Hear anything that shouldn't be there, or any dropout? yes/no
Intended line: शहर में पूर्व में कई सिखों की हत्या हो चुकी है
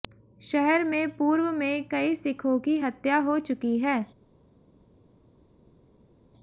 no